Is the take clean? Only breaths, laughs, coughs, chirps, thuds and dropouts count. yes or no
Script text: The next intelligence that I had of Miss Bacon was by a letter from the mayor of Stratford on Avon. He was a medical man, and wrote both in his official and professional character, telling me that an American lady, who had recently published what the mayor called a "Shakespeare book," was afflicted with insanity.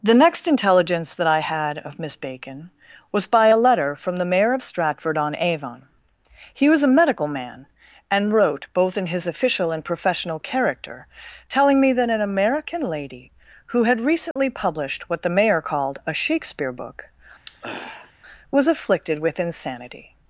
no